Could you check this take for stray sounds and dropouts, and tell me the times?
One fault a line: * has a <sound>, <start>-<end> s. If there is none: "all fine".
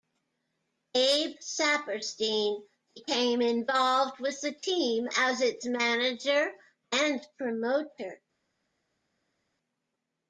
all fine